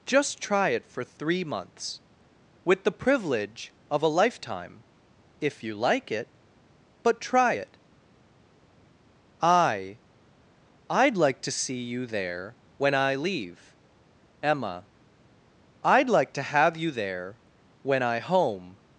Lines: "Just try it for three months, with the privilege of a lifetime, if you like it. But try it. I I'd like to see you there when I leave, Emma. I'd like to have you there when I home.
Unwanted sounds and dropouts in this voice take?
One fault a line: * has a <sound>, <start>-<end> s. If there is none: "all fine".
all fine